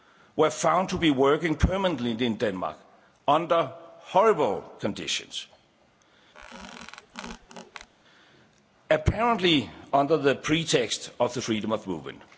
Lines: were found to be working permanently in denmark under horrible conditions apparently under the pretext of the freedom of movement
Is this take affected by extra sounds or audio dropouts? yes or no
yes